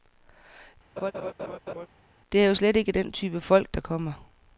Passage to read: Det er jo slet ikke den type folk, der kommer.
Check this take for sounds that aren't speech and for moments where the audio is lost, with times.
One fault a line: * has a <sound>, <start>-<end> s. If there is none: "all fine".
* has a laugh, 1.0-1.9 s